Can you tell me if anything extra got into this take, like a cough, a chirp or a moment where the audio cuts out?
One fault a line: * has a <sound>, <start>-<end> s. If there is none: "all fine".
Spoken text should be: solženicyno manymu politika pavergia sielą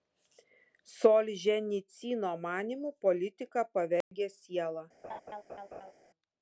* has a dropout, 4.0-4.1 s
* has a laugh, 5.0-5.9 s